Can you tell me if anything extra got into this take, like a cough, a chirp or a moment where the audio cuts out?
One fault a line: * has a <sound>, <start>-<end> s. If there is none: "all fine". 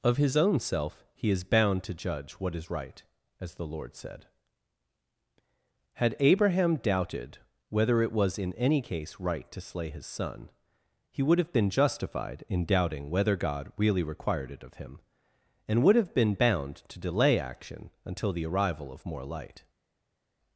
all fine